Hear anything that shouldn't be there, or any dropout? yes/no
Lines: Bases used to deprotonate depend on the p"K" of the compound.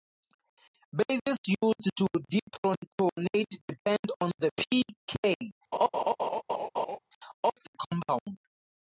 yes